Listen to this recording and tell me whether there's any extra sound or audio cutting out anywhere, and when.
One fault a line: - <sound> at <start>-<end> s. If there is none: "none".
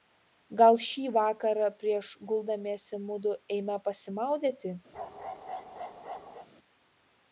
- bark at 4.9-6.5 s